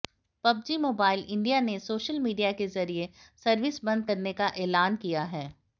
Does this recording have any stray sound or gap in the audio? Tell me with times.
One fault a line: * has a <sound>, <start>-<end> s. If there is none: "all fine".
all fine